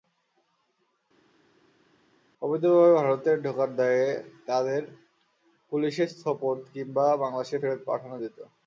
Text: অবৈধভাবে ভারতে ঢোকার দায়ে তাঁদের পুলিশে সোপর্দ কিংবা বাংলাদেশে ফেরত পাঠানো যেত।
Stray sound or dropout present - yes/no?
no